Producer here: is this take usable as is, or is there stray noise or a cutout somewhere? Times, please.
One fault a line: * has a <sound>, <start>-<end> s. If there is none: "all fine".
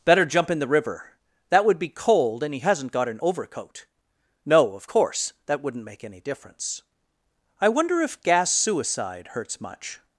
all fine